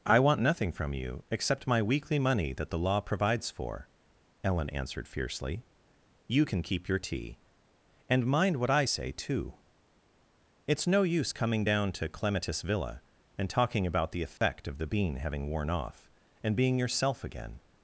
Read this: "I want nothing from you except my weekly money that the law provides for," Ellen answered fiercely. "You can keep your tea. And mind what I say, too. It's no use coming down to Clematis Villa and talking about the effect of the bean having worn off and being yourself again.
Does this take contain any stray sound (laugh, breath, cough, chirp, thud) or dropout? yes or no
yes